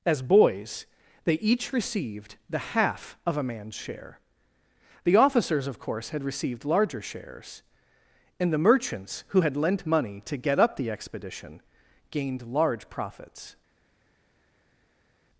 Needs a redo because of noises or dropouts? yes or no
no